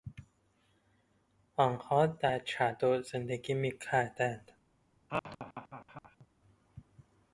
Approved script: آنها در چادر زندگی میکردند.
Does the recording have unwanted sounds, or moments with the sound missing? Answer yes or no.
yes